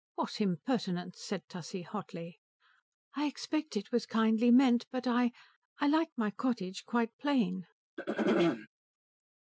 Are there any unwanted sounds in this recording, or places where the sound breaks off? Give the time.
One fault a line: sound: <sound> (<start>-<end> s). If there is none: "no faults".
sound: throat clearing (8.0-8.7 s)